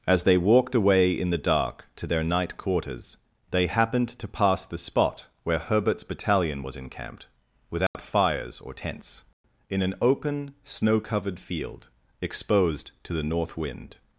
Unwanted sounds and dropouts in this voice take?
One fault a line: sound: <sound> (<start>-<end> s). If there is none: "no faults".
sound: dropout (7.9-7.9 s)